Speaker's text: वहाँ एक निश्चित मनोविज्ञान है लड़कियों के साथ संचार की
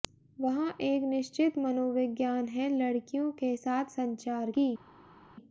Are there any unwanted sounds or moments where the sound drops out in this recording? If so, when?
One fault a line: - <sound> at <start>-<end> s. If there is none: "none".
none